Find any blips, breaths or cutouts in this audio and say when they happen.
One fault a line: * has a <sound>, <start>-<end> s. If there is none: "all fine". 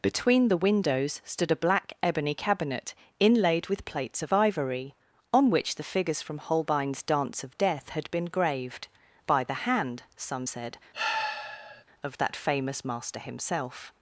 * has a sigh, 10.9-11.8 s